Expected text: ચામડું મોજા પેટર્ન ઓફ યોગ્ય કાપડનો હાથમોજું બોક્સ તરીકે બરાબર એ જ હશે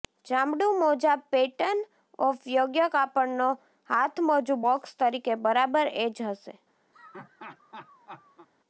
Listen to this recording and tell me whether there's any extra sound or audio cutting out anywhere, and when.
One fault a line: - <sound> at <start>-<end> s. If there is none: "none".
- laugh at 6.9-8.5 s